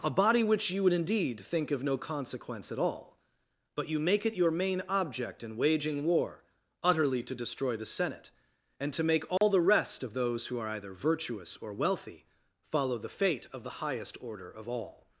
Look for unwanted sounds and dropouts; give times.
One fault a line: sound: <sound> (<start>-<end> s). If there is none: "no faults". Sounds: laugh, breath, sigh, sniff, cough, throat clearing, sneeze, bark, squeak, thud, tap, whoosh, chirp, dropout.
sound: dropout (9.4-9.4 s)